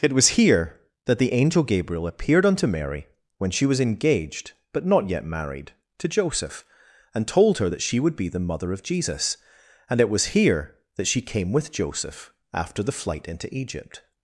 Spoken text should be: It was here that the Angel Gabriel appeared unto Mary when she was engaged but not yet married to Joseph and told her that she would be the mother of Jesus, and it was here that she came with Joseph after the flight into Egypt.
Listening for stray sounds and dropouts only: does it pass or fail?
pass